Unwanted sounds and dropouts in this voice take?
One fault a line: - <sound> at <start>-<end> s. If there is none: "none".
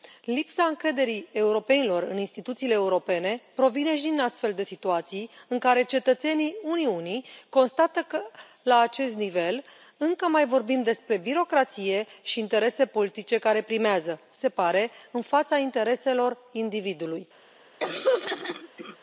- throat clearing at 17.8-19.0 s